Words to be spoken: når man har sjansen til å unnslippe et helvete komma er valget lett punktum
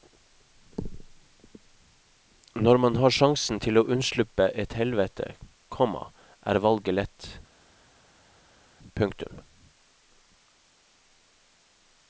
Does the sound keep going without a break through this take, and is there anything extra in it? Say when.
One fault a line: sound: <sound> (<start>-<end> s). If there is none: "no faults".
no faults